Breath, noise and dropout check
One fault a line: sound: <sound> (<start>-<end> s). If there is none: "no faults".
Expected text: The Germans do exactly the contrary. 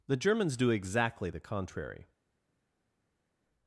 no faults